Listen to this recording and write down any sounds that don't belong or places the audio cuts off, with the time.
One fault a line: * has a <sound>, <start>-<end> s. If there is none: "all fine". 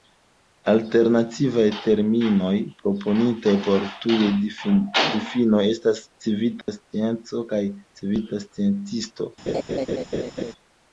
* has a dropout, 6.6-6.7 s
* has a laugh, 9.5-10.5 s